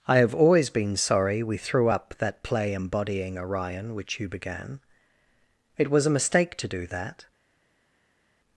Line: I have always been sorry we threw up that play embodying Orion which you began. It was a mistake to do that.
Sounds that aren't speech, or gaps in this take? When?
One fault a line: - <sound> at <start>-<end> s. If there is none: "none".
none